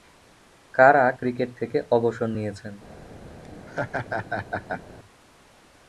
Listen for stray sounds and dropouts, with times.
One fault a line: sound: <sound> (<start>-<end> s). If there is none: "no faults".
sound: laugh (3.4-4.8 s)